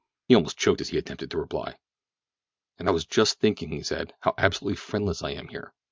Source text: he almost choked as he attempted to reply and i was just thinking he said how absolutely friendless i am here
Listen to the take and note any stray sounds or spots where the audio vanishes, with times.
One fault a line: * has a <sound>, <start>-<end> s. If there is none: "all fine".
all fine